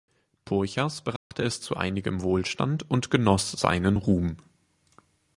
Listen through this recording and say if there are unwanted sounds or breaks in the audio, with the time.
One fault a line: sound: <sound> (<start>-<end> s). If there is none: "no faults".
sound: dropout (1.2-1.3 s)